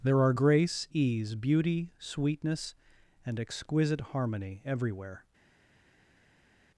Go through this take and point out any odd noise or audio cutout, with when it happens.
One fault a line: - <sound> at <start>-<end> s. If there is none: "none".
none